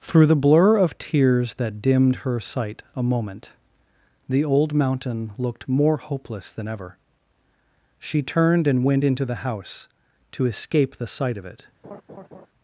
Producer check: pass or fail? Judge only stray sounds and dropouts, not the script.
fail